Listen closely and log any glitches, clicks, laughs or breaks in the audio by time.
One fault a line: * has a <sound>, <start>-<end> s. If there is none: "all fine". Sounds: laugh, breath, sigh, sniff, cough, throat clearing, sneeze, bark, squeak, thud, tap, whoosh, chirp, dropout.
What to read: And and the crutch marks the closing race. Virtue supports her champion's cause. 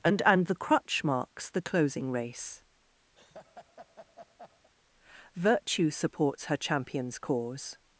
* has a laugh, 3.2-4.7 s